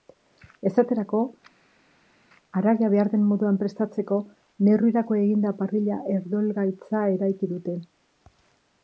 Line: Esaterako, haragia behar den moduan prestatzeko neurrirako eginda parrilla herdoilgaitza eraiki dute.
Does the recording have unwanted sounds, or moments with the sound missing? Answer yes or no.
no